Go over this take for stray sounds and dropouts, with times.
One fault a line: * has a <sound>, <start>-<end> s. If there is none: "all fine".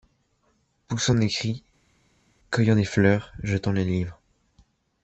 all fine